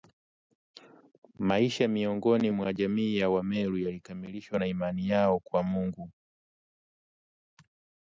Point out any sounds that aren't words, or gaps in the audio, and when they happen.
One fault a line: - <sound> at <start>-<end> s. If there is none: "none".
none